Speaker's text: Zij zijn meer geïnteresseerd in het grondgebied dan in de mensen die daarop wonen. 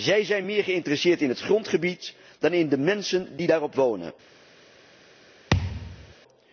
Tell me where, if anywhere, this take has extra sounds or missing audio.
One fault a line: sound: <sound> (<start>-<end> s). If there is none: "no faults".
sound: thud (5.5-6.1 s)